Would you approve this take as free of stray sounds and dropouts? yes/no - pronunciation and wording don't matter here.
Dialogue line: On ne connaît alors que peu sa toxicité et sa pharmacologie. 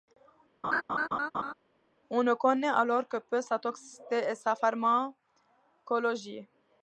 no